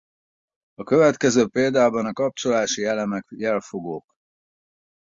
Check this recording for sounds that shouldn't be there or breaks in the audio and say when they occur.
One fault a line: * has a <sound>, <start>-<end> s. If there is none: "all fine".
all fine